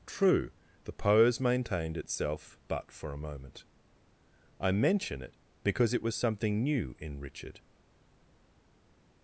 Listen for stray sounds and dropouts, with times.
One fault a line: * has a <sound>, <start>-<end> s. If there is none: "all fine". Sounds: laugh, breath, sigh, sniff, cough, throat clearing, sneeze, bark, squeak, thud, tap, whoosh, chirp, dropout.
all fine